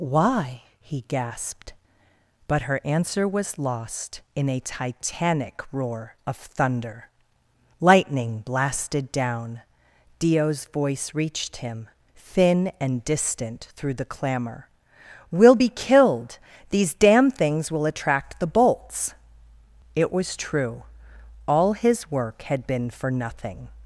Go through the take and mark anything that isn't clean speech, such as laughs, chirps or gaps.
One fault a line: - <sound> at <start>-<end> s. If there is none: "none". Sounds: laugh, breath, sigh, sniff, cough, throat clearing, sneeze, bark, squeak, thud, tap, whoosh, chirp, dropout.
none